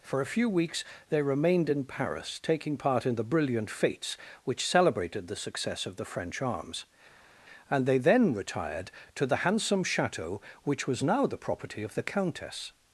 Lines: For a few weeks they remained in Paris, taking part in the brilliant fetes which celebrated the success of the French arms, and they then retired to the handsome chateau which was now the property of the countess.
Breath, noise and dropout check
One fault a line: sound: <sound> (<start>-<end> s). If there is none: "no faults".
no faults